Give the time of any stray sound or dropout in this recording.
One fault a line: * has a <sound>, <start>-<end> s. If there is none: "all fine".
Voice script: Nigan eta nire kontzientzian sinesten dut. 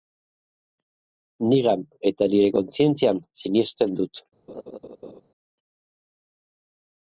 * has a laugh, 4.5-5.2 s